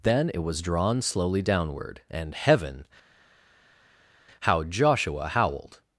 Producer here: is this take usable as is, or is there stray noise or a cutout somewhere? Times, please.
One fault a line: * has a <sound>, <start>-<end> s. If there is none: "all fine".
all fine